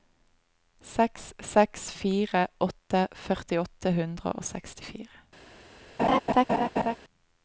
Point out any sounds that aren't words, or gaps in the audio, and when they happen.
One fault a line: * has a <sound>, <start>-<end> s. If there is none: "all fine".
* has a laugh, 6.0-7.0 s